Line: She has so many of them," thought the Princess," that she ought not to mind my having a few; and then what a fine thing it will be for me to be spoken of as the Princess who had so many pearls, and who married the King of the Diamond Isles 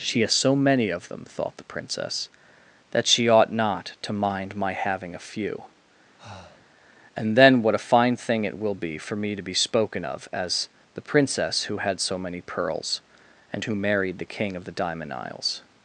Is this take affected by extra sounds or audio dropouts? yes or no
yes